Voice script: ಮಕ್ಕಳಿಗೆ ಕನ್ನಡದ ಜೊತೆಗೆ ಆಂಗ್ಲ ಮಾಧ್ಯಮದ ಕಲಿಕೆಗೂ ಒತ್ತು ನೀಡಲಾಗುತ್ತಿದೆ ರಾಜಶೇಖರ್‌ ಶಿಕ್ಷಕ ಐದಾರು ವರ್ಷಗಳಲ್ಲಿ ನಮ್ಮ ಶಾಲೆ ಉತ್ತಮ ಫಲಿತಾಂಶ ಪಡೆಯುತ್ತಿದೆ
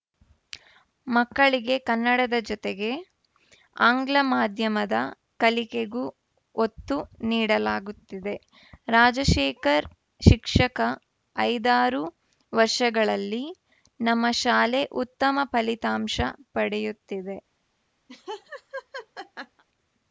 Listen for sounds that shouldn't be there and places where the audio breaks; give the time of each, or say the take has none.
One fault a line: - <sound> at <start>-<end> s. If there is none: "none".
- laugh at 18.1-19.6 s